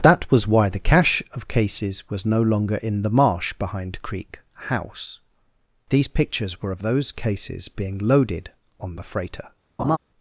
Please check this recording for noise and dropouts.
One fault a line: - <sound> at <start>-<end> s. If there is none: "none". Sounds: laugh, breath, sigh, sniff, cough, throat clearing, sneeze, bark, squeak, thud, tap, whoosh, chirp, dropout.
- laugh at 9.8-10.0 s